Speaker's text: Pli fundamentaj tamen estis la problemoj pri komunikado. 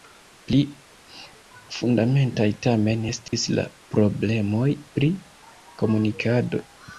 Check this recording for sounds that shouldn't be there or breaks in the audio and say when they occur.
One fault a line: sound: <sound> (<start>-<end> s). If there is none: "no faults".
sound: dropout (3.3-3.3 s)